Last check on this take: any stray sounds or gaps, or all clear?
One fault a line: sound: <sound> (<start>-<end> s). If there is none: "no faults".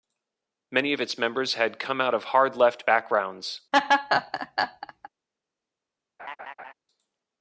sound: laugh (3.7-5.1 s)
sound: laugh (6.2-6.7 s)